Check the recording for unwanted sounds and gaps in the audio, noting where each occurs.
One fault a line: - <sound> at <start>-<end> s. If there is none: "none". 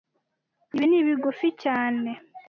none